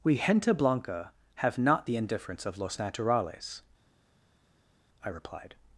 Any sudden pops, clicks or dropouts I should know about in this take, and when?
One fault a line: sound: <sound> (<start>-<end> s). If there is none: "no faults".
no faults